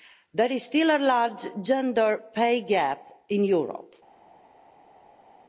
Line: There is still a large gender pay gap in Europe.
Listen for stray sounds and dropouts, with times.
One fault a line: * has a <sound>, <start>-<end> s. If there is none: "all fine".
all fine